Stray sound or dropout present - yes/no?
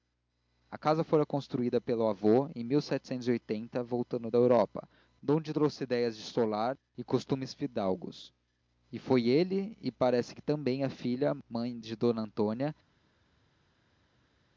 no